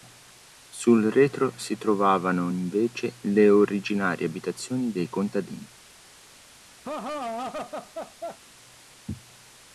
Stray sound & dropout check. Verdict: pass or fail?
fail